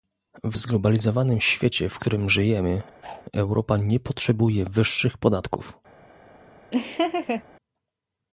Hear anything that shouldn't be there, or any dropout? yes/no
yes